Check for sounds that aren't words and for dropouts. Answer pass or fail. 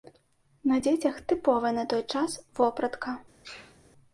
fail